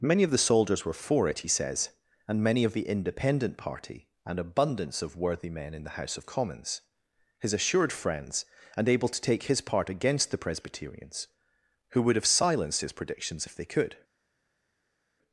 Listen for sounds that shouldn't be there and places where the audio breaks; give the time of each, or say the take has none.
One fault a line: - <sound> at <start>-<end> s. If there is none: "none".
none